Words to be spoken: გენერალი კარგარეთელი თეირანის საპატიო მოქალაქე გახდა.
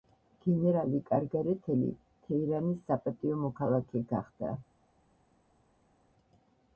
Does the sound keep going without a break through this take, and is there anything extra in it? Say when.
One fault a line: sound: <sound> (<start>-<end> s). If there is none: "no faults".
no faults